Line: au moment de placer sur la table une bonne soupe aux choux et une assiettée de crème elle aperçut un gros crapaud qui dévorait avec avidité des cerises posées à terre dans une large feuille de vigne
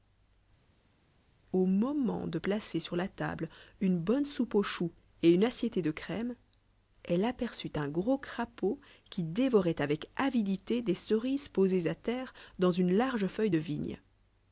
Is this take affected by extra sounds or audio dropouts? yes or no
no